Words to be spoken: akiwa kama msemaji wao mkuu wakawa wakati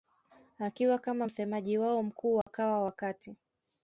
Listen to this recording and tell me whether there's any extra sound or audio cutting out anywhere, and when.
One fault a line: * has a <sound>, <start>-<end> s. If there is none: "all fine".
* has a dropout, 2.4-2.5 s